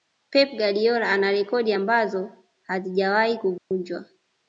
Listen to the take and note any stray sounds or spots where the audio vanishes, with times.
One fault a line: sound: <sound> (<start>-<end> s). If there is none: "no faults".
sound: dropout (3.6-3.7 s)